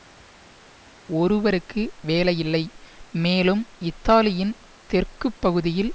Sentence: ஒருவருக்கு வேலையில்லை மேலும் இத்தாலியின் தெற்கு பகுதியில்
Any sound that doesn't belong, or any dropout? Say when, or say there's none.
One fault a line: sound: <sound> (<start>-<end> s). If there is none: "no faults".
no faults